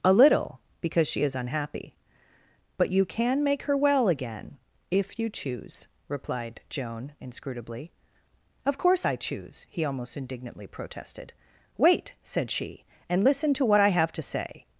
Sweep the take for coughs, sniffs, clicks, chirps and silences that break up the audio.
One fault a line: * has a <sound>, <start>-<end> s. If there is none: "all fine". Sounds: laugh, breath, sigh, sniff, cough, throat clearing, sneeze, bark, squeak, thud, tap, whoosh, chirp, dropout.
all fine